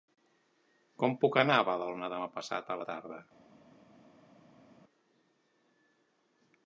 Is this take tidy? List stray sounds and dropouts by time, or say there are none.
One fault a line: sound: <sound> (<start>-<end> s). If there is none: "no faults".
no faults